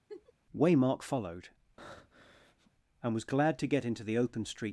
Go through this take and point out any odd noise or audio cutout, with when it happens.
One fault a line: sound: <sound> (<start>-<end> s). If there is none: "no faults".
sound: laugh (0.1-0.3 s)
sound: breath (1.8-2.7 s)